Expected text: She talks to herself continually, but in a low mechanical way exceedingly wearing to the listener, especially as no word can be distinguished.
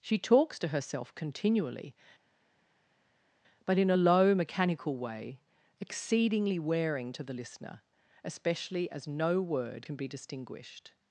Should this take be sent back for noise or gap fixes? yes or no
no